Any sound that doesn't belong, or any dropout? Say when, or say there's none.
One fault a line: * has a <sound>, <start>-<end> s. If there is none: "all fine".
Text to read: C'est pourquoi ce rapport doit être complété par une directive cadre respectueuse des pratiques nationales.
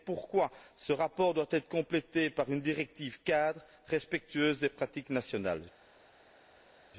all fine